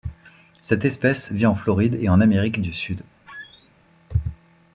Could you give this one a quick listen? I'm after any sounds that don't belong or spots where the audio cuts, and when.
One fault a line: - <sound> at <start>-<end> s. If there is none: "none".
- squeak at 3.3-3.7 s